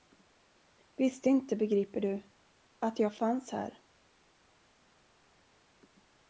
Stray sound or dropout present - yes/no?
no